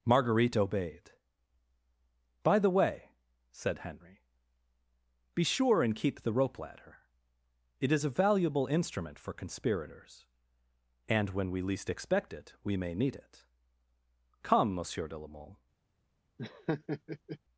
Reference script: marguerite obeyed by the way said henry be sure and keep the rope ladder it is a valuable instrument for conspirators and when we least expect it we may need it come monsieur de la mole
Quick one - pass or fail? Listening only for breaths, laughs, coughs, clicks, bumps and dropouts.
fail